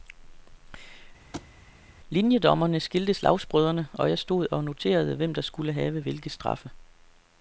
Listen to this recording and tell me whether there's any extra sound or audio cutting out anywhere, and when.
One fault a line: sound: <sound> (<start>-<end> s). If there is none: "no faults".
sound: thud (1.3-1.5 s)